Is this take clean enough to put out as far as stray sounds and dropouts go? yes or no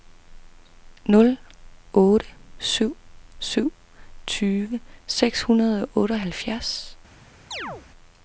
no